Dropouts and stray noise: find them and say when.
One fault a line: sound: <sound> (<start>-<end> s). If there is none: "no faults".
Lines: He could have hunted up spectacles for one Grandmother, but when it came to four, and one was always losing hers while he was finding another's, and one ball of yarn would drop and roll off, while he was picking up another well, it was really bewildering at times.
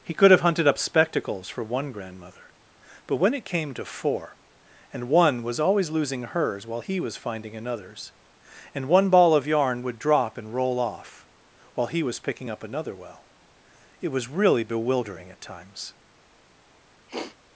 sound: sniff (17.1-17.4 s)